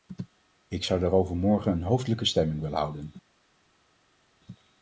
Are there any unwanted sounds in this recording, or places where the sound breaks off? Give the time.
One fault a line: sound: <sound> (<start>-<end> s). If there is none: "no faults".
no faults